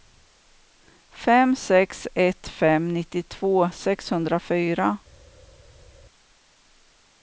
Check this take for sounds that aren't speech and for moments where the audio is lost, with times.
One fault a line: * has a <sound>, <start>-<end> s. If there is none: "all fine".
all fine